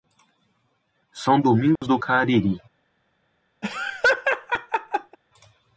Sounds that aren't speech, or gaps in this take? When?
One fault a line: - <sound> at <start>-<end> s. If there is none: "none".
- dropout at 1.8-1.8 s
- laugh at 3.6-5.2 s